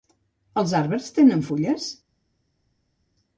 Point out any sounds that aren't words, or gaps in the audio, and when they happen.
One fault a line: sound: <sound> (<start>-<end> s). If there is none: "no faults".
no faults